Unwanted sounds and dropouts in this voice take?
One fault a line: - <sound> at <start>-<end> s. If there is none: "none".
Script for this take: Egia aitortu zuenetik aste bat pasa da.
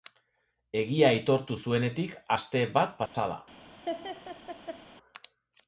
- dropout at 3.1-3.1 s
- laugh at 3.9-4.8 s